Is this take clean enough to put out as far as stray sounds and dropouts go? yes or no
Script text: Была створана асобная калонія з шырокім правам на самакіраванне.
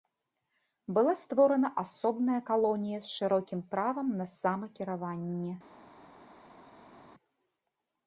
yes